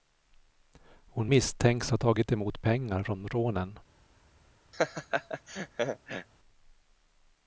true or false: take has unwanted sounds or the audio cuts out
true